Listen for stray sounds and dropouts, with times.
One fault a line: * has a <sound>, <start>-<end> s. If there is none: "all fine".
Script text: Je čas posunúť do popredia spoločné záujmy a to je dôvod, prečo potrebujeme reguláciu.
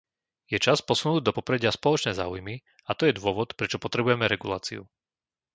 all fine